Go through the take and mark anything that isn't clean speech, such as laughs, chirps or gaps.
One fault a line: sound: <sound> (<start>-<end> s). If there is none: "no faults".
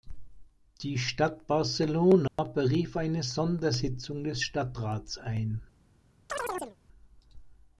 sound: dropout (2.3-2.4 s)
sound: chirp (6.3-6.8 s)